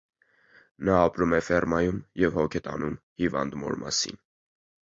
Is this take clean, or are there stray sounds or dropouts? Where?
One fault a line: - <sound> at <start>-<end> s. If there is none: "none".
none